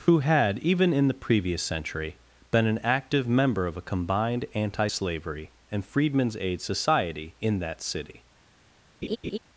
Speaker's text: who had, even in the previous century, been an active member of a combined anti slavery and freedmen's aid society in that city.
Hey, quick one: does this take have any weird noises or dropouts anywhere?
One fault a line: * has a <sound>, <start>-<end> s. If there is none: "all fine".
* has a laugh, 9.0-9.4 s